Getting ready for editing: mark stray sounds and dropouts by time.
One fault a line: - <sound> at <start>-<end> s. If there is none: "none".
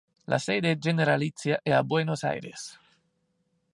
none